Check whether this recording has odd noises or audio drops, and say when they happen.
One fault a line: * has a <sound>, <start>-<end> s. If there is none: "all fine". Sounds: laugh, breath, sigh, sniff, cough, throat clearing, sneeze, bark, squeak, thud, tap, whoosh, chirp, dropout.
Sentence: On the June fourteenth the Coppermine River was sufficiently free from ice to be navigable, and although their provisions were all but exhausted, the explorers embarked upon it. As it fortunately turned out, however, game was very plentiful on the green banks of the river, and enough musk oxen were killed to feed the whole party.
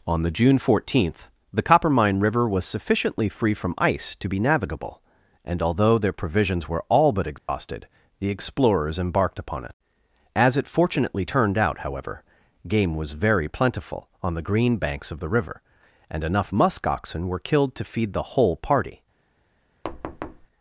* has a dropout, 7.4-7.5 s
* has a thud, 19.8-20.5 s